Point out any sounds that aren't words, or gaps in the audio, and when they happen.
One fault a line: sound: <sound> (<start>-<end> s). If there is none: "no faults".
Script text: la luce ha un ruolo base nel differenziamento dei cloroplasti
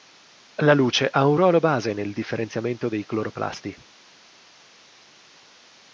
no faults